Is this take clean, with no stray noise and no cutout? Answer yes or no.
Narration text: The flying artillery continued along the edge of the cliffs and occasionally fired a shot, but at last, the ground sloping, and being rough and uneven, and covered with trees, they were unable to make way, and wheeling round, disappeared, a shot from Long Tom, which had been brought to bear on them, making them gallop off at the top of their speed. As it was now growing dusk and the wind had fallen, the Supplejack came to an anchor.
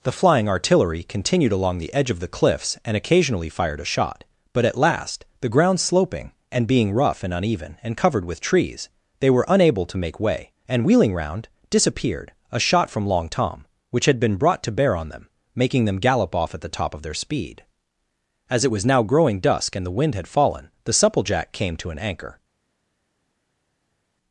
yes